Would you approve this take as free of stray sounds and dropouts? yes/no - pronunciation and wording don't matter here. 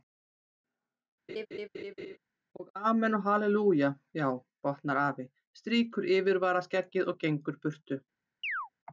no